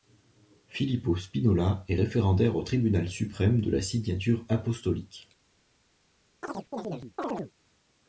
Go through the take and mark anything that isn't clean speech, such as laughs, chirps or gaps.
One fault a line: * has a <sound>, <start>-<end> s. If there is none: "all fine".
* has a chirp, 6.4-7.5 s